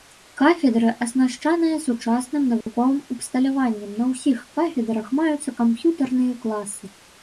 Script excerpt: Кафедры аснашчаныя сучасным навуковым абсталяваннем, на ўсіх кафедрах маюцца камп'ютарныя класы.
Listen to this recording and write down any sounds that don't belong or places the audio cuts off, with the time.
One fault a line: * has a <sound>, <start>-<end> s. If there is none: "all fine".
* has a dropout, 2.6-2.7 s